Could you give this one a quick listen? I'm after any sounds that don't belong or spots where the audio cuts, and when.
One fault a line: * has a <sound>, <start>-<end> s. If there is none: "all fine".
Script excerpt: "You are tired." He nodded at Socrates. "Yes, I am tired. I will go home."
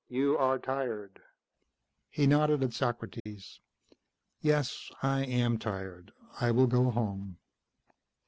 * has a dropout, 3.2-3.3 s